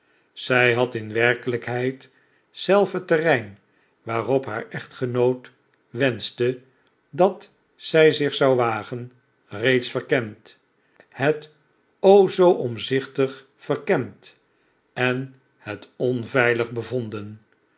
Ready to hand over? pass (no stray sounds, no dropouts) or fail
pass